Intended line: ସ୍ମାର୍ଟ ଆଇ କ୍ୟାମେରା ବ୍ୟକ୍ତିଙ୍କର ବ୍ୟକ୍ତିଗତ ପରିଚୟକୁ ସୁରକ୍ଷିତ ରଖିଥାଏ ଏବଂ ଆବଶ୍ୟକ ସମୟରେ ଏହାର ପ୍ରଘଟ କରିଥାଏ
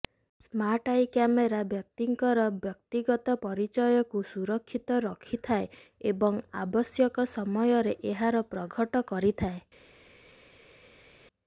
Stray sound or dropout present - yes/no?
no